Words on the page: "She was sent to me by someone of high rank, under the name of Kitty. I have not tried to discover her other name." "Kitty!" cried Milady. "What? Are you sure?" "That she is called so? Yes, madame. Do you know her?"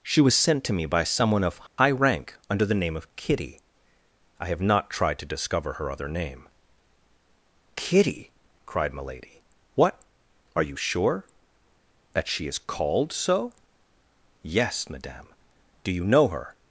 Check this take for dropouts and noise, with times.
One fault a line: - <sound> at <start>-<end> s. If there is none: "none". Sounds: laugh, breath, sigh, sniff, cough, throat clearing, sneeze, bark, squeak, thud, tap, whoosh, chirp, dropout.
- dropout at 1.7-1.8 s